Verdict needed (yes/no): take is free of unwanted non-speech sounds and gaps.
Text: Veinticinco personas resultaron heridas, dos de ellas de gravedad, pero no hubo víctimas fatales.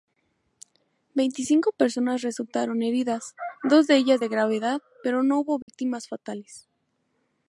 no